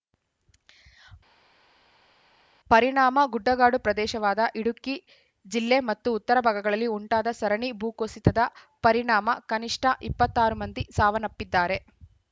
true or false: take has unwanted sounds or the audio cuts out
false